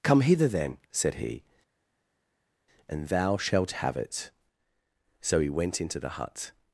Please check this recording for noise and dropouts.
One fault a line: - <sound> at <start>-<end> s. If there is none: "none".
none